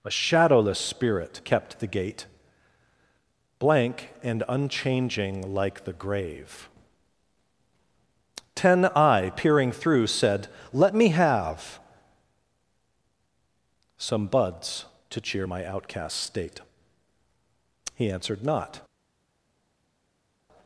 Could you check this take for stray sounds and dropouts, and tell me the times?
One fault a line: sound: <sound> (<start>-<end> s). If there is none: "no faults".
no faults